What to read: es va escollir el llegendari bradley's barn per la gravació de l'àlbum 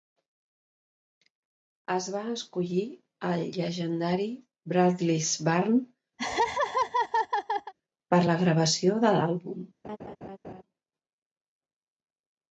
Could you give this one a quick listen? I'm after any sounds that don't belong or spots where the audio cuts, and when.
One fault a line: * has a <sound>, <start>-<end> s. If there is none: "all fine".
* has a laugh, 6.2-7.7 s
* has a laugh, 9.8-10.6 s